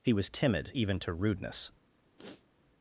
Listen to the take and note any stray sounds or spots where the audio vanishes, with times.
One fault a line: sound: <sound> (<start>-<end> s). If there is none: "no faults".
sound: sniff (2.2-2.4 s)